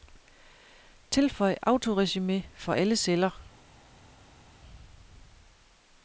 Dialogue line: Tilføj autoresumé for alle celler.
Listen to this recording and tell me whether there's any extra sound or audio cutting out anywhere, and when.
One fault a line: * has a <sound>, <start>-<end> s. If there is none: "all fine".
all fine